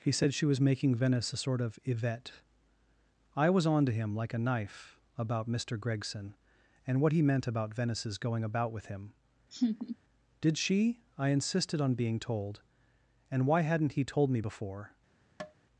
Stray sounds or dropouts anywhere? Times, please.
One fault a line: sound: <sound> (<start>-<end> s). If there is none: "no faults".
sound: laugh (9.5-10.0 s)
sound: tap (15.4-15.5 s)